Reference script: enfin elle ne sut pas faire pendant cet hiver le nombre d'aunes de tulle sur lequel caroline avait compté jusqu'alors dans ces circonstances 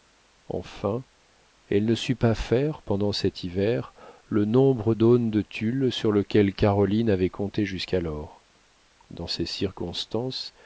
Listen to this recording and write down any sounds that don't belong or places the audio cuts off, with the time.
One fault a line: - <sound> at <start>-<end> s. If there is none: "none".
none